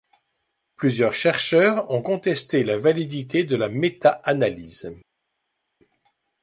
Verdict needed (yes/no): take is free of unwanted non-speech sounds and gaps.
yes